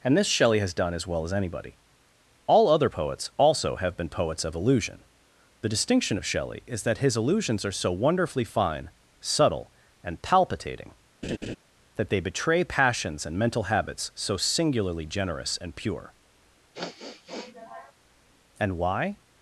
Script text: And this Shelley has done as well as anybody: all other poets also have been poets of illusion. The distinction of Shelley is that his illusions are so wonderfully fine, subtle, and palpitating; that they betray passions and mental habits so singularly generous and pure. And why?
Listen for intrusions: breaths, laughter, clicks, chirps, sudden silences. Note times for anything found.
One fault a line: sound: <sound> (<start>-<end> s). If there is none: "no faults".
sound: laugh (11.2-11.6 s)
sound: sniff (16.7-17.9 s)